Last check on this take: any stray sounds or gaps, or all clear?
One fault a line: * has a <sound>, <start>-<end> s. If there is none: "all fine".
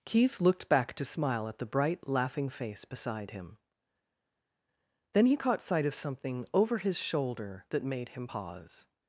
all fine